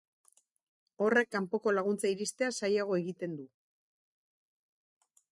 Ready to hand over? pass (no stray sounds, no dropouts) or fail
pass